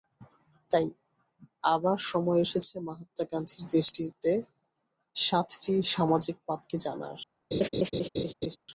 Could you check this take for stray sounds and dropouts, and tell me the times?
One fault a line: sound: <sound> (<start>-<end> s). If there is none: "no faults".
sound: laugh (7.5-8.6 s)